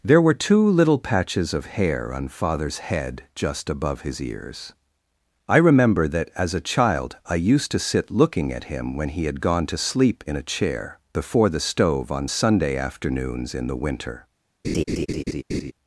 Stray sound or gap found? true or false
true